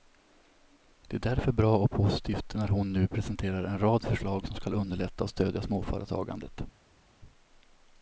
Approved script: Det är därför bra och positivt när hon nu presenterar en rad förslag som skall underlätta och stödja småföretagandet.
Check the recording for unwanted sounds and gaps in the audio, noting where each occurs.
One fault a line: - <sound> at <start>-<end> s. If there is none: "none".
none